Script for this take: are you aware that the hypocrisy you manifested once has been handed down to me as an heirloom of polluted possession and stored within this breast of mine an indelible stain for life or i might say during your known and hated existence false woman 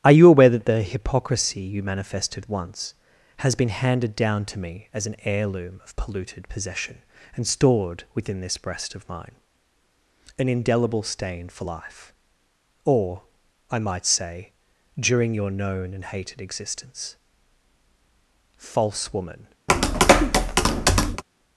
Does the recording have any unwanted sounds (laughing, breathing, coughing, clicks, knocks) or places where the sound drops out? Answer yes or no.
yes